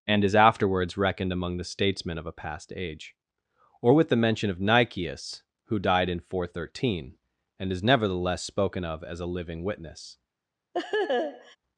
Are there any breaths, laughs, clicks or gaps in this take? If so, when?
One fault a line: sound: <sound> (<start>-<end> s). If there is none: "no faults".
sound: laugh (10.7-11.6 s)